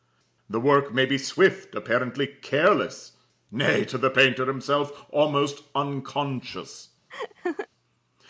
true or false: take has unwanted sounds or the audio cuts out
true